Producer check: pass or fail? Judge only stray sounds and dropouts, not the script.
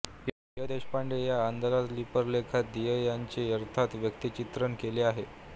pass